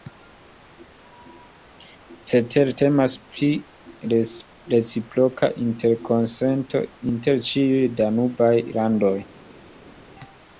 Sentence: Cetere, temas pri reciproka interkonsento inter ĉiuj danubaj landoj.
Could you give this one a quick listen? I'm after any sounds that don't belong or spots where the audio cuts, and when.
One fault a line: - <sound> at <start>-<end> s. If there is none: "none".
none